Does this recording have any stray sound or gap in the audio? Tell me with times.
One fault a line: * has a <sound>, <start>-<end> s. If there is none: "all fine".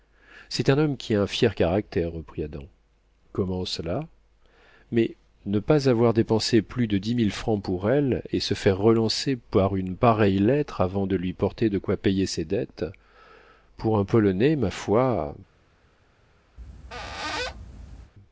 * has a squeak, 16.6-18.1 s